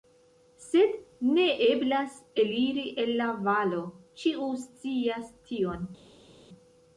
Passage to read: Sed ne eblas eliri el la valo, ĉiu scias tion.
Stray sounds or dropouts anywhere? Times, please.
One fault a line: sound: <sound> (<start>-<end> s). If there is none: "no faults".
no faults